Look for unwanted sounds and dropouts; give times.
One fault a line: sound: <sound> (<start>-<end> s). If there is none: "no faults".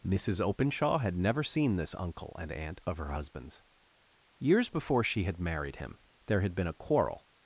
no faults